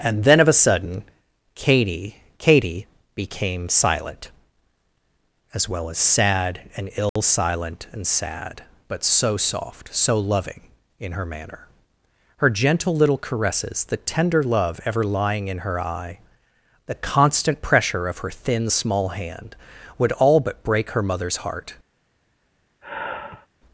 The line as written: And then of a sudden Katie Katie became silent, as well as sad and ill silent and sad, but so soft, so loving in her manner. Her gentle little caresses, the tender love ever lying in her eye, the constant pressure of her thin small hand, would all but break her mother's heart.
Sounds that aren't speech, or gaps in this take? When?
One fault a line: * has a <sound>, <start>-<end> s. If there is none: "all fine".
* has a dropout, 7.1-7.2 s
* has a sigh, 22.8-23.5 s